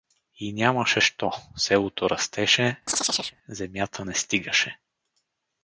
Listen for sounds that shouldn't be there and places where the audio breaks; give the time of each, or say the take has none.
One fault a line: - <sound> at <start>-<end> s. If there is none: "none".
- chirp at 2.9-3.4 s